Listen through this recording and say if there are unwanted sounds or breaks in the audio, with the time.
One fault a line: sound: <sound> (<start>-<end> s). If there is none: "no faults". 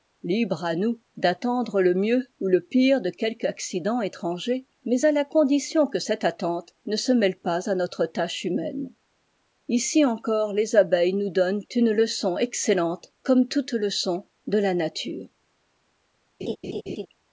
sound: laugh (16.4-17.1 s)